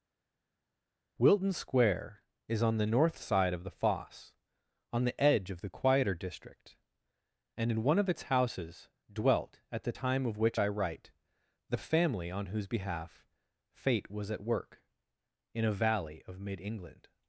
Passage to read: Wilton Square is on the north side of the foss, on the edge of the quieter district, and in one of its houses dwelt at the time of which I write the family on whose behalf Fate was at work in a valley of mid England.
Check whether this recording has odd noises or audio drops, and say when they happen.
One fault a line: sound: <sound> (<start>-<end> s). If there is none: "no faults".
no faults